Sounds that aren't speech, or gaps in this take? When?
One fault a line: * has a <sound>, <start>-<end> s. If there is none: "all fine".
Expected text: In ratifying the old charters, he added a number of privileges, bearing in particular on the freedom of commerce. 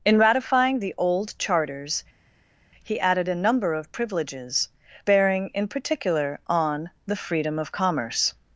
all fine